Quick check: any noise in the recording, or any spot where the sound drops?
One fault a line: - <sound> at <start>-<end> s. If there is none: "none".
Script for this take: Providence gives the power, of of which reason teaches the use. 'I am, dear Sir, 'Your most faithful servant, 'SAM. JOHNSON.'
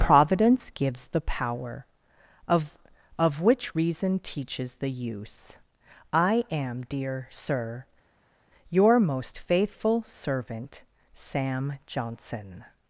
none